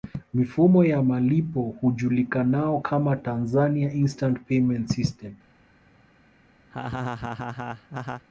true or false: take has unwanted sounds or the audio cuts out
true